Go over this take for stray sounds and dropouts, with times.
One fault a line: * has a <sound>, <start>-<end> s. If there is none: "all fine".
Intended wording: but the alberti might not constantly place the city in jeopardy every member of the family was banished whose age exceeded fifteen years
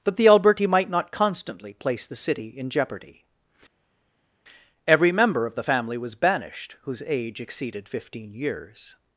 all fine